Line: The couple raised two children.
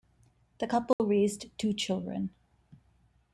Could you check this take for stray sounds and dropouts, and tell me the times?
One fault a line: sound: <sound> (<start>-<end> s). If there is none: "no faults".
sound: dropout (0.9-1.0 s)